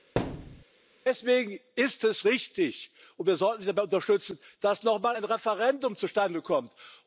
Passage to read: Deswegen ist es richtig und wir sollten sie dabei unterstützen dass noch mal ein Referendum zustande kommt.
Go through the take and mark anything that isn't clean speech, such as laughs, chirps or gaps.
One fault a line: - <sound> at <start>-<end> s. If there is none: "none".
- thud at 0.2-0.6 s